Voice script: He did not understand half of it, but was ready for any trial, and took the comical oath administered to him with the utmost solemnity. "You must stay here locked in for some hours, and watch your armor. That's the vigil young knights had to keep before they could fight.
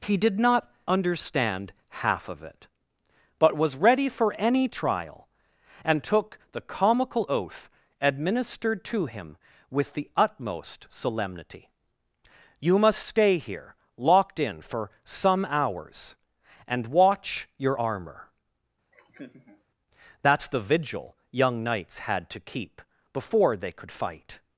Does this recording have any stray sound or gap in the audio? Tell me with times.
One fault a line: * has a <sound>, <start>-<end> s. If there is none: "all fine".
* has a laugh, 18.9-19.6 s